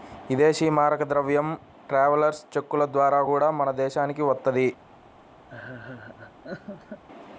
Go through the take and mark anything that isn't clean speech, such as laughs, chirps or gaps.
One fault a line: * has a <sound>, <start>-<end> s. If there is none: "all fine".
* has a laugh, 5.5-7.0 s